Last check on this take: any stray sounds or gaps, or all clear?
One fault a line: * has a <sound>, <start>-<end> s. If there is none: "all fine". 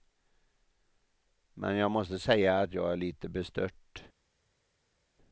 all fine